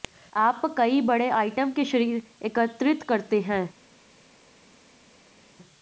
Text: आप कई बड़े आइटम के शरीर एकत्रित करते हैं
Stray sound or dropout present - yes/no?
no